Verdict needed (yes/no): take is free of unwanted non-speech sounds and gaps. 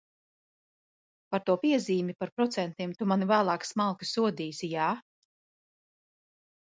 yes